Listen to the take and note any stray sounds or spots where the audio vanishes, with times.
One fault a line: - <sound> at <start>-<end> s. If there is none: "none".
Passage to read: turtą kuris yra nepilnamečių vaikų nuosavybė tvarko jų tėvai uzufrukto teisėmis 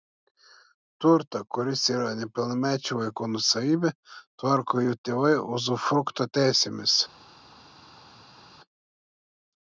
none